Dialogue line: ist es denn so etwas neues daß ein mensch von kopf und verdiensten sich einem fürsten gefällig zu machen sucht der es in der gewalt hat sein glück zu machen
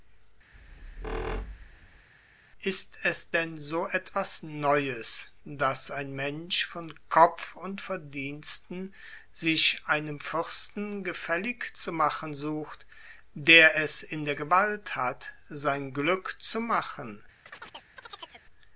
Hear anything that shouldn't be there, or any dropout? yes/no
yes